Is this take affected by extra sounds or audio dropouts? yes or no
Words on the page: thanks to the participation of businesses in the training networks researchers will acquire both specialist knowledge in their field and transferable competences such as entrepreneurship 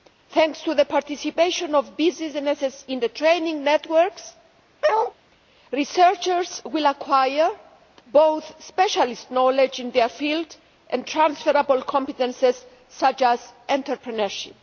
yes